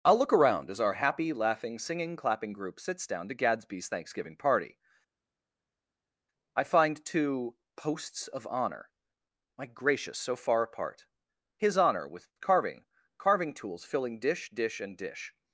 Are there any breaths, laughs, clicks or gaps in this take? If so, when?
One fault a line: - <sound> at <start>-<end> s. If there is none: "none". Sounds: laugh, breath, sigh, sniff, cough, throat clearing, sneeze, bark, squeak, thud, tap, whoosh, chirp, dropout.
none